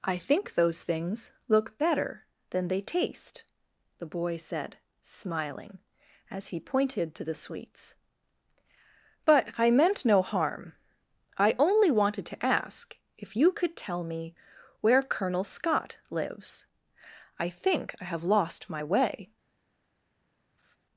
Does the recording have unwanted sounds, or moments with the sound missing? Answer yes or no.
yes